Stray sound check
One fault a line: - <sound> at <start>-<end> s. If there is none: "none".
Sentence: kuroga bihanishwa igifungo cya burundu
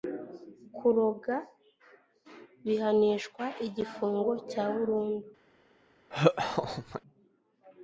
- laugh at 6.1-7.0 s